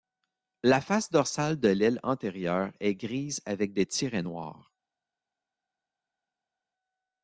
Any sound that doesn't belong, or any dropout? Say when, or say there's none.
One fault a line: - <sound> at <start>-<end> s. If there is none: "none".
none